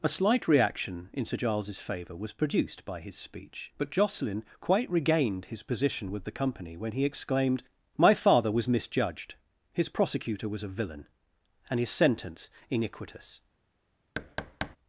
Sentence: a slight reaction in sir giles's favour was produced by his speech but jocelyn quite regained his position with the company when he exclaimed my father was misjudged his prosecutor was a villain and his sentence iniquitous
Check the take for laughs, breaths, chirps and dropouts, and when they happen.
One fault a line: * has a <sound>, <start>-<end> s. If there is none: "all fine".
* has a thud, 14.1-14.8 s